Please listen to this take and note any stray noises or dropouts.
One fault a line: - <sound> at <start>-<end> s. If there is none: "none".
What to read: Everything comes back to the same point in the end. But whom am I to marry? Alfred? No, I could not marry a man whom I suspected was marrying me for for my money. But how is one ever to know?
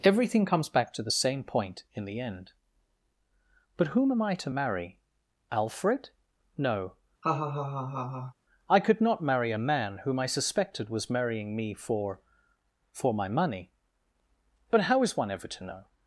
- laugh at 7.2-8.3 s